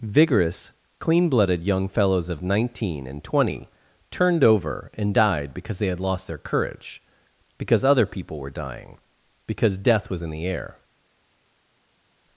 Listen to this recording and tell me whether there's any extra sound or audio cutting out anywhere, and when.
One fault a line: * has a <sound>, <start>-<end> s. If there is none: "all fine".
all fine